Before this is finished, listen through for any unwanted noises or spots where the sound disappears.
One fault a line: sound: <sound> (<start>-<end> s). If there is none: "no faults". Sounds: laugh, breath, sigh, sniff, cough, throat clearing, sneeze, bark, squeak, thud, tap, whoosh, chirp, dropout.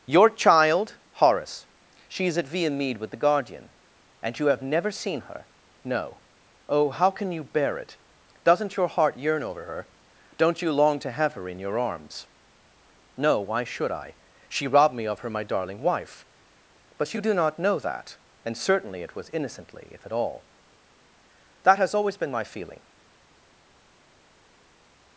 no faults